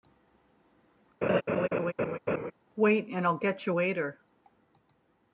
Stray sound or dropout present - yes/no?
yes